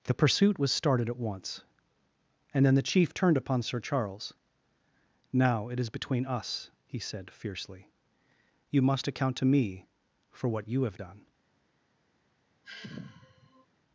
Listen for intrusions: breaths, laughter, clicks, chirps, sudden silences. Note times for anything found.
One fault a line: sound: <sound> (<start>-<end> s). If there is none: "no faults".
sound: sigh (12.6-13.7 s)